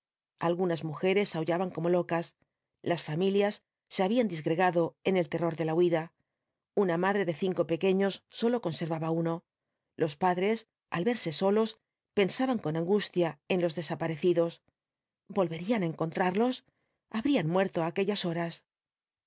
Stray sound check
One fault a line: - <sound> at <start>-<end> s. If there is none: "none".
none